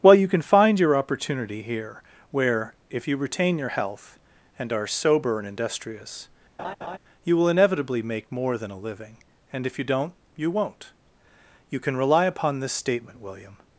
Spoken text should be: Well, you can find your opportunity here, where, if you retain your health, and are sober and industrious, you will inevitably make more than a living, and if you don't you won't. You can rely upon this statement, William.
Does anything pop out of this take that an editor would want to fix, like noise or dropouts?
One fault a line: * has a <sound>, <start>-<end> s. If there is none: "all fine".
* has a laugh, 6.6-7.0 s